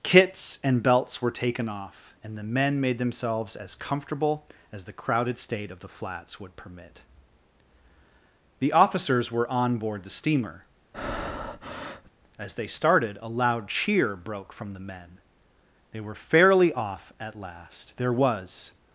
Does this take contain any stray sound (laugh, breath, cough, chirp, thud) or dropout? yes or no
yes